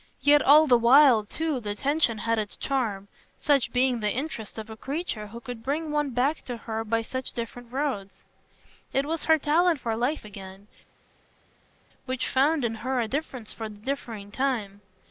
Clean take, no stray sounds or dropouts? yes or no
yes